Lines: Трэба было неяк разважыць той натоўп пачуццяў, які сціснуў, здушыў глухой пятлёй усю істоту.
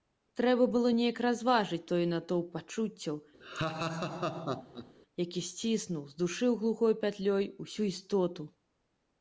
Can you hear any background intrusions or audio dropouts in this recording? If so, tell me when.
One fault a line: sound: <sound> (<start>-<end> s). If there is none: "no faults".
sound: laugh (3.4-4.9 s)